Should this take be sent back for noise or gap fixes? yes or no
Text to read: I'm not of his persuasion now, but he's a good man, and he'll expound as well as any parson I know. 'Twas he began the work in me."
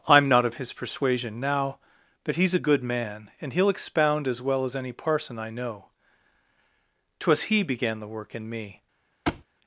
yes